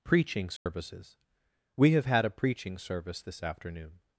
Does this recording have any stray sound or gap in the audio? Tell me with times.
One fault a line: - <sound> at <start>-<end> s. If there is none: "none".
- dropout at 0.6-0.7 s